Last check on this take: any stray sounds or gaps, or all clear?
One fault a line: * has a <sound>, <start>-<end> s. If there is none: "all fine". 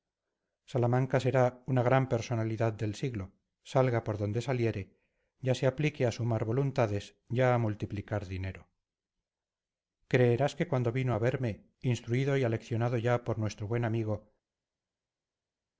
all fine